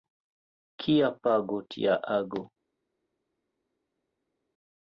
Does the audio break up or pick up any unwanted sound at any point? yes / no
no